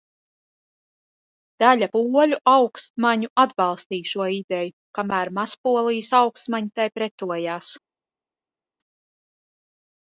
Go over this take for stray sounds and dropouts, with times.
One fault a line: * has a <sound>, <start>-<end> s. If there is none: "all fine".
all fine